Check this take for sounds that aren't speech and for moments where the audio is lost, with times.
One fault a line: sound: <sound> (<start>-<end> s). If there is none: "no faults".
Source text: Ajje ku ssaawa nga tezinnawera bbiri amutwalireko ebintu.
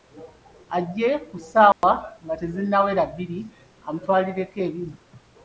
sound: dropout (1.7-1.8 s)